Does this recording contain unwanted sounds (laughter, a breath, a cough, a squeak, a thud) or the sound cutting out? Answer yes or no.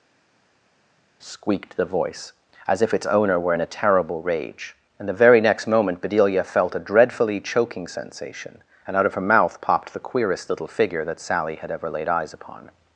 no